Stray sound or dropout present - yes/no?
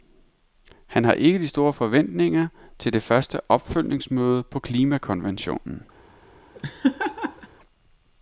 yes